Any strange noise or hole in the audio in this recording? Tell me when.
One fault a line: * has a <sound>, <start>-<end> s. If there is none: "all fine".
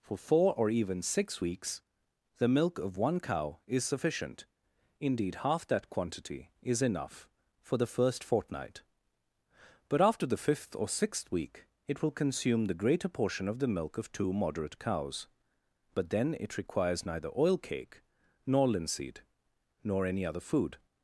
all fine